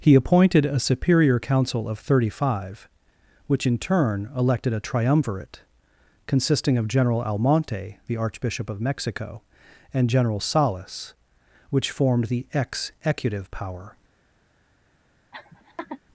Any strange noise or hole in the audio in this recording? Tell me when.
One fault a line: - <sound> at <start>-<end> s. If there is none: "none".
- laugh at 15.3-16.0 s